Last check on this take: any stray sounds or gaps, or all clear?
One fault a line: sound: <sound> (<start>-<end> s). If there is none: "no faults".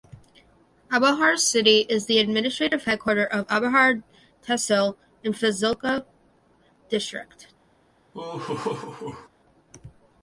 sound: laugh (8.1-9.3 s)